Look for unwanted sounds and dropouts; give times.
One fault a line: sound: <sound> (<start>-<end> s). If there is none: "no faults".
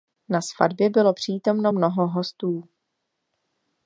no faults